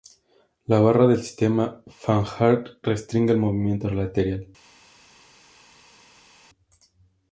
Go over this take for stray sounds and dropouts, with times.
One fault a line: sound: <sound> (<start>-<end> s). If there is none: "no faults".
no faults